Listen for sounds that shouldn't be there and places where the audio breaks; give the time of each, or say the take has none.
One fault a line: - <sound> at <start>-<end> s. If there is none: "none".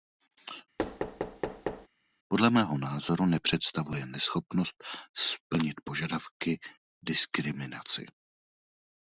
- thud at 0.8-1.9 s